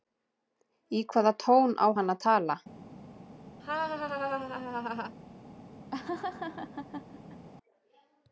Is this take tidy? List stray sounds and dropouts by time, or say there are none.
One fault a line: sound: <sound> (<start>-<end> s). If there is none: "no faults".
sound: laugh (3.6-5.1 s)
sound: laugh (5.9-7.5 s)